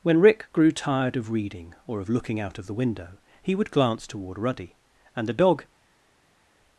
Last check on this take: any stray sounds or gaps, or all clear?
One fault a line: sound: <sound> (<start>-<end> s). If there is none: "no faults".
no faults